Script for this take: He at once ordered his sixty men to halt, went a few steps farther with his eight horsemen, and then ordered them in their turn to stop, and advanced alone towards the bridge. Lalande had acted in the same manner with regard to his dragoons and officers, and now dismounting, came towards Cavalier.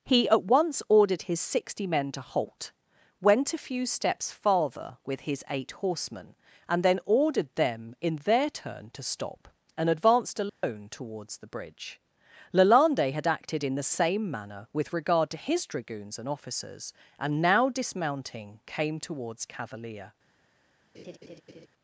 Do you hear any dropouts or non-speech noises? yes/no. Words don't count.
yes